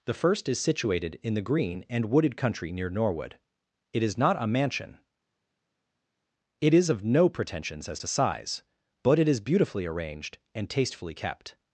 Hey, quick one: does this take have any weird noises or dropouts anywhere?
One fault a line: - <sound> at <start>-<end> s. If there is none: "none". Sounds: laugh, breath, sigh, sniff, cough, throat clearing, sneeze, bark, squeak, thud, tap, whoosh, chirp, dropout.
none